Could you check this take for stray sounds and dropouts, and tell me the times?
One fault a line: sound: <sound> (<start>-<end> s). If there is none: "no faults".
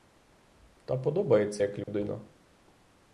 sound: dropout (1.8-1.9 s)